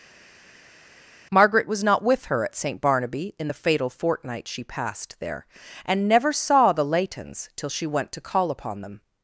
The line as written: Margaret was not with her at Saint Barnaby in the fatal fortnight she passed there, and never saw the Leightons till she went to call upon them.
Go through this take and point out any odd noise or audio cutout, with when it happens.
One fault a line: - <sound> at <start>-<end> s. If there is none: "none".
none